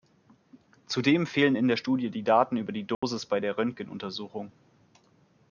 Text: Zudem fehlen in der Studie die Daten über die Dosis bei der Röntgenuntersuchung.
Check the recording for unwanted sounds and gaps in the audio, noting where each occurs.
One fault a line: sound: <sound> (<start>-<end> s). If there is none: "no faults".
sound: dropout (2.9-3.0 s)